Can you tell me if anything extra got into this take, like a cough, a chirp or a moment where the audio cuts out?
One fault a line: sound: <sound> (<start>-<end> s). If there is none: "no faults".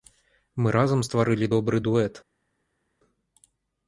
no faults